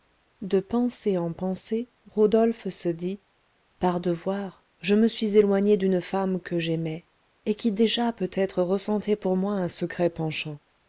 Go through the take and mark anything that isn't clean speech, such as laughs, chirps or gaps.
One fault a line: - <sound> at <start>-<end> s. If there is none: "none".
none